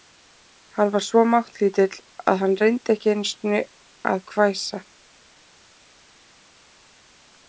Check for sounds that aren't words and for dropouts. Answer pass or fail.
pass